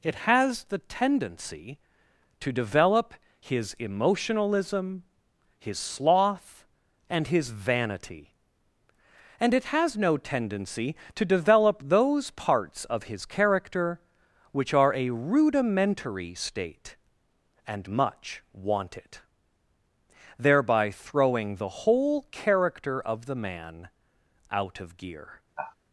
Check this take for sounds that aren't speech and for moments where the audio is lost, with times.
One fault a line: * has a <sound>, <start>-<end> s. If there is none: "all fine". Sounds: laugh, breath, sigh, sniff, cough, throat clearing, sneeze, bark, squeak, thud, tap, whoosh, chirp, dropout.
* has a sigh, 25.6-25.8 s